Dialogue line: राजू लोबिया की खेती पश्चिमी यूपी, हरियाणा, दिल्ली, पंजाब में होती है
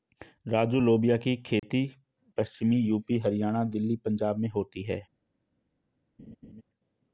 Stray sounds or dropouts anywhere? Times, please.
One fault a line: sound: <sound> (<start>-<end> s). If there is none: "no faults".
sound: dropout (1.6-1.6 s)
sound: laugh (6.2-6.6 s)